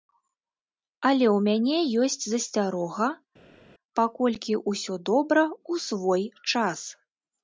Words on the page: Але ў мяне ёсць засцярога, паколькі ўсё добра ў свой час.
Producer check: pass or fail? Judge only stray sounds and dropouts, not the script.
pass